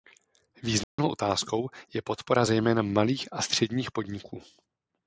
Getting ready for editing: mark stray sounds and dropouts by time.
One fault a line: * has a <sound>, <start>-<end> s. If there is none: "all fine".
* has a dropout, 0.8-1.0 s